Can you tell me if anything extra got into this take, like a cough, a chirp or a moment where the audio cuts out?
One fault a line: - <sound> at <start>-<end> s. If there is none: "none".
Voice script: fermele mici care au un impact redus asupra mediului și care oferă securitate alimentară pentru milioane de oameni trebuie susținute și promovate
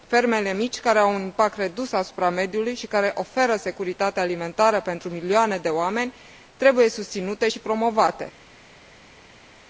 none